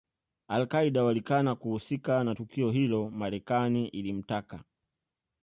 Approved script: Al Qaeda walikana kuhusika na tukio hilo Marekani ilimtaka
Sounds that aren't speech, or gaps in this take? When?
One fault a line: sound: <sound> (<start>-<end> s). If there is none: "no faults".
no faults